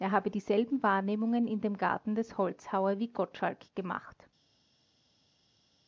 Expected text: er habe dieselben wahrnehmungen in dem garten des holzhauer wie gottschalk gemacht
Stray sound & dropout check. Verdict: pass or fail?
pass